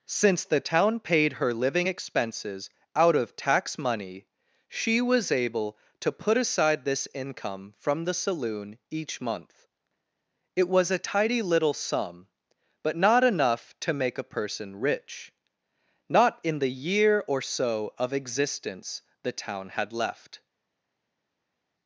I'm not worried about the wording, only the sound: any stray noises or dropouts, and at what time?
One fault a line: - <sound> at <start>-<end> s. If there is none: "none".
none